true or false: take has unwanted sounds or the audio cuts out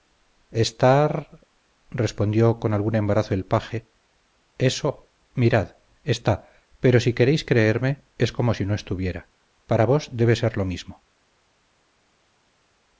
false